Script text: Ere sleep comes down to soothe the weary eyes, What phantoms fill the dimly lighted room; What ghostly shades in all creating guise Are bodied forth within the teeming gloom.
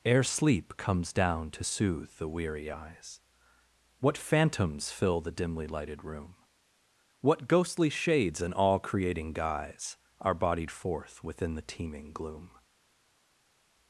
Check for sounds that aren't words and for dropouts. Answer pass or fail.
pass